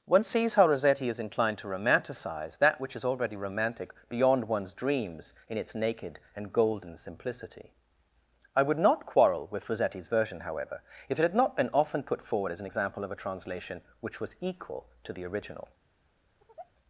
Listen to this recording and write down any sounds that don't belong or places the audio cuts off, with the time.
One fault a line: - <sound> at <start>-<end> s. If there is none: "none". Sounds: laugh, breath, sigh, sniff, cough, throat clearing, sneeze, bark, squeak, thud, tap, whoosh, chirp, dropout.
- sigh at 16.4-16.7 s